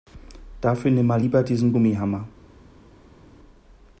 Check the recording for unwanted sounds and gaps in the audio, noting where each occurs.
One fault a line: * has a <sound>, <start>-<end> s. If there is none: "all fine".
all fine